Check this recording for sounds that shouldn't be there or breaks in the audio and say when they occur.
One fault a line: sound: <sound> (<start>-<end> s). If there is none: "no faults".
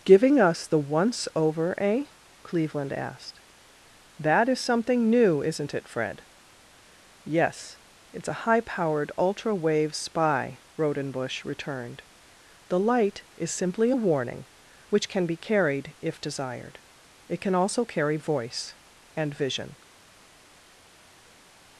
no faults